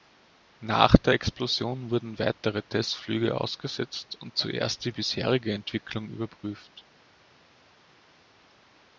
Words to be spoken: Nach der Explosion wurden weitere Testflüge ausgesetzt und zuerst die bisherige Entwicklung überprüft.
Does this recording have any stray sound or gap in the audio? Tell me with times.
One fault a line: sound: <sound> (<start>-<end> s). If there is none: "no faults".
no faults